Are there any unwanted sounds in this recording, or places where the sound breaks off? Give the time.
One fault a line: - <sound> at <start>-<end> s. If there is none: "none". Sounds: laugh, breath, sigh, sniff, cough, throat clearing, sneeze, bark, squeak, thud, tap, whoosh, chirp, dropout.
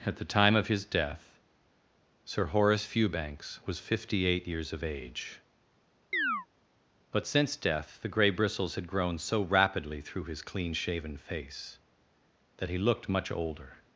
- chirp at 6.1-6.5 s